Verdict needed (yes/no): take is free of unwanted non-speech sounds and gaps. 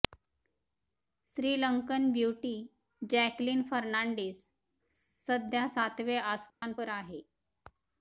no